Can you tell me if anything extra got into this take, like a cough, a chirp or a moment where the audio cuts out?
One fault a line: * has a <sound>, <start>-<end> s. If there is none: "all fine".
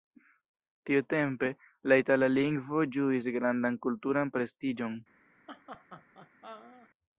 * has a laugh, 5.5-6.9 s